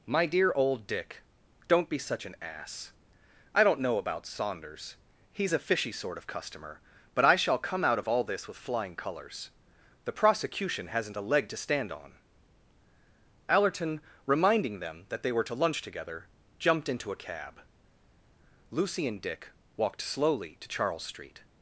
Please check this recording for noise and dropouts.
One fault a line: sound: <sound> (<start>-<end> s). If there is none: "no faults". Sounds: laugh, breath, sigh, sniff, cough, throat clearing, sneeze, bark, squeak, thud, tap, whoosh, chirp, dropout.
no faults